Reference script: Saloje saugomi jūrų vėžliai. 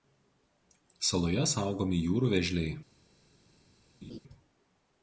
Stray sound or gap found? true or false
true